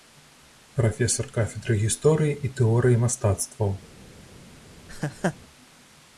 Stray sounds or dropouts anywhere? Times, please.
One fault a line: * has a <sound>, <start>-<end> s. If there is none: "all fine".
* has a laugh, 4.9-5.4 s